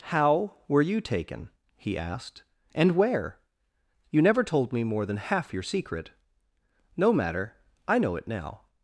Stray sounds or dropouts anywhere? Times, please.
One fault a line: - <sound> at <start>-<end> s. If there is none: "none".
none